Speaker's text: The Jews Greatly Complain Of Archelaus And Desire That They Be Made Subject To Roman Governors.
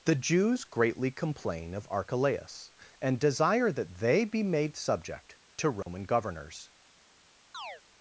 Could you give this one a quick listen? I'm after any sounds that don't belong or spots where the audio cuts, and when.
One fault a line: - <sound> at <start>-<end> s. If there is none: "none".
- dropout at 5.8-5.9 s
- chirp at 7.5-7.8 s